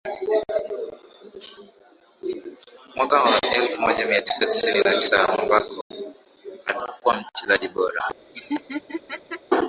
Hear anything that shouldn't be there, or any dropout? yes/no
yes